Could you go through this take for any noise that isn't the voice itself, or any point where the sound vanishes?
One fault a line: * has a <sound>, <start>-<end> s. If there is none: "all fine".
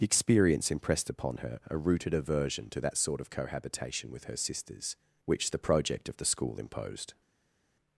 all fine